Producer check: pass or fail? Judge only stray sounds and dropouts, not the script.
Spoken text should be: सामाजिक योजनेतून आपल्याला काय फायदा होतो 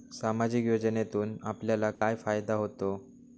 fail